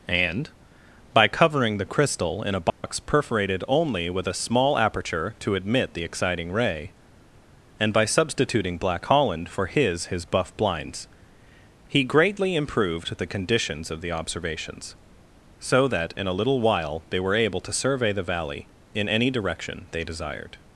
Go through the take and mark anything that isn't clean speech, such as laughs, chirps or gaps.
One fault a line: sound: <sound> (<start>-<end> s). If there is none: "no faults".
sound: dropout (2.7-2.8 s)